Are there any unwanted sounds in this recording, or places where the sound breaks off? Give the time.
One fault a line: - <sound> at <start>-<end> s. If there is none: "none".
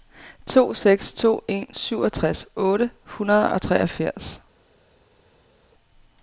none